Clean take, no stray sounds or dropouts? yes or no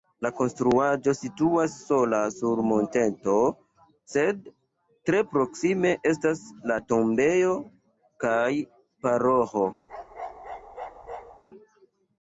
no